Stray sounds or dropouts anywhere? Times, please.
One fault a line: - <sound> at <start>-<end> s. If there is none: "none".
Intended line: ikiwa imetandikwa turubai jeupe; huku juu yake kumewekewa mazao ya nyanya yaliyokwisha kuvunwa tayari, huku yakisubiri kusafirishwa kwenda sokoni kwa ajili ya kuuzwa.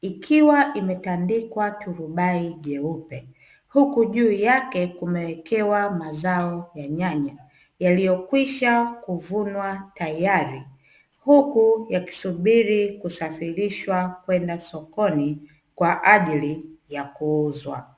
none